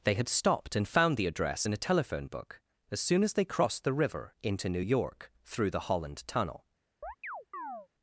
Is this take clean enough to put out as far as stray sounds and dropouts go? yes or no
no